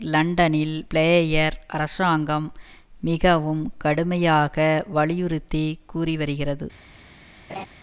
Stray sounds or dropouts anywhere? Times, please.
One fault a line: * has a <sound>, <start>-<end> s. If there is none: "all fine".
* has a laugh, 7.5-7.7 s